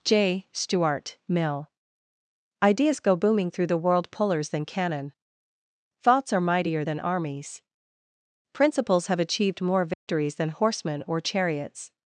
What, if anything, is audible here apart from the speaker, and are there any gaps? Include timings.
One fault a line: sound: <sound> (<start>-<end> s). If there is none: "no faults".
sound: dropout (9.9-10.1 s)